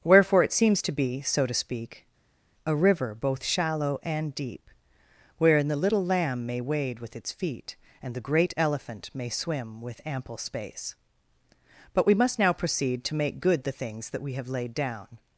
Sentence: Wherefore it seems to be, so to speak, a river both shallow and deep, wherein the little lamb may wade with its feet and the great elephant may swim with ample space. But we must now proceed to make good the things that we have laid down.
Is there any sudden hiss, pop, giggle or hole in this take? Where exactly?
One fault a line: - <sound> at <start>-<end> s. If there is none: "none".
none